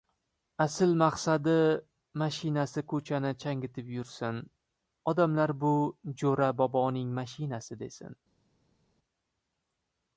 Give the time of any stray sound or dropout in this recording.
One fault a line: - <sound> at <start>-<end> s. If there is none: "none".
none